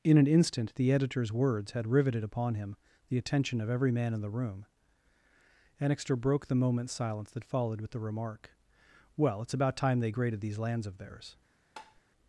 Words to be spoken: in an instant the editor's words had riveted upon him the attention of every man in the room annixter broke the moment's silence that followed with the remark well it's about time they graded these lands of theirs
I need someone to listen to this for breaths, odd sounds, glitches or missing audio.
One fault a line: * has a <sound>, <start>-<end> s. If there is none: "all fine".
* has a tap, 11.8-12.0 s